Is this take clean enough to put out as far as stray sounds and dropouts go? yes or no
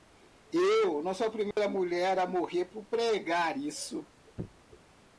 no